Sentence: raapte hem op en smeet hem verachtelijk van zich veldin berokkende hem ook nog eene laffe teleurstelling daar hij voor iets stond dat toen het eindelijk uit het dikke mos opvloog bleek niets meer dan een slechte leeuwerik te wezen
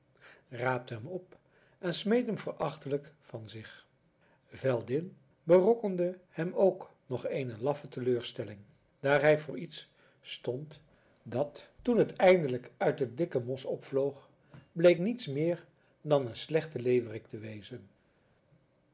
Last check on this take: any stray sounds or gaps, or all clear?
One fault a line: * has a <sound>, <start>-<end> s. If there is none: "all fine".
all fine